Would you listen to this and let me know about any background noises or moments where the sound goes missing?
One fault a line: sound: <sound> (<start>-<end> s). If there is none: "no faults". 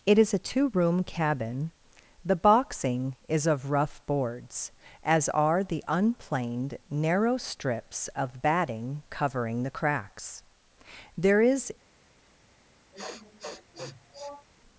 sound: sniff (12.9-14.5 s)